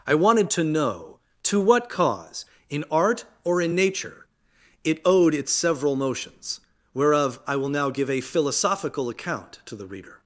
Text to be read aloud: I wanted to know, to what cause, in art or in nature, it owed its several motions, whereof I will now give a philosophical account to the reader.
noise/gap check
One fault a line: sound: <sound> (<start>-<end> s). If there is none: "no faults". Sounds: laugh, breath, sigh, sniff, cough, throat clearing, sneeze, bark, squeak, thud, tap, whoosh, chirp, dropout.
no faults